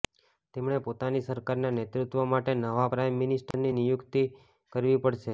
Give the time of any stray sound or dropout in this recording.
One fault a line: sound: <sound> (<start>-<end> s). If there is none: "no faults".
sound: dropout (3.5-3.5 s)